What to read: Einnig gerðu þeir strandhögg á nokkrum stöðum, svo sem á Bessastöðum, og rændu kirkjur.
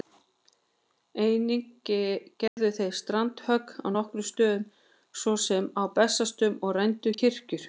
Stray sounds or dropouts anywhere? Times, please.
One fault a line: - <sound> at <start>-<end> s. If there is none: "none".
- dropout at 2.5-2.6 s